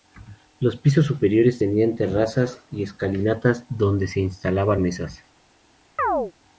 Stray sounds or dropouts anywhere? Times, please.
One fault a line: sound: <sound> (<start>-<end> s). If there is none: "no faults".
sound: chirp (6.0-6.3 s)